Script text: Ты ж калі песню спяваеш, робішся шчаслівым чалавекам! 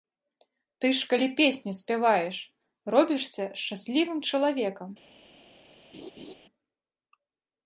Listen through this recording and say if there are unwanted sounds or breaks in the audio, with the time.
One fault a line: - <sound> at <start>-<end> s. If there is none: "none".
- laugh at 5.9-6.3 s